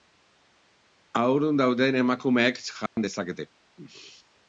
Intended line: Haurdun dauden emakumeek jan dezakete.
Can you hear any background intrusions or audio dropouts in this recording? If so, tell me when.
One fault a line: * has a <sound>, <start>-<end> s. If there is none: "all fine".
* has a dropout, 2.9-3.0 s